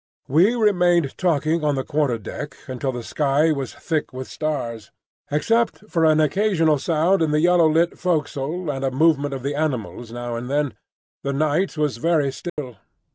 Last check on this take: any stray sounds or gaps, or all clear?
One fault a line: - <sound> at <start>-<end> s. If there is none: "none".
- dropout at 12.5-12.6 s